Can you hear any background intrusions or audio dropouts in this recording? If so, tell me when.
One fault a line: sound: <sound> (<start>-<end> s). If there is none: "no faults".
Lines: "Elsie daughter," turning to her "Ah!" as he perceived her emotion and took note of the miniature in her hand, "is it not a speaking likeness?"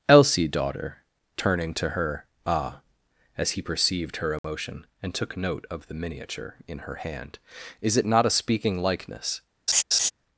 sound: dropout (4.4-4.4 s)
sound: laugh (9.7-10.1 s)